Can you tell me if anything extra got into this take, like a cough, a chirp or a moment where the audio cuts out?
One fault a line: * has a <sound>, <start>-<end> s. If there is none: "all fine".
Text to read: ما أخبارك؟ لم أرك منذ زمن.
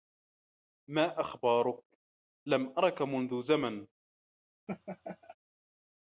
* has a laugh, 4.7-5.4 s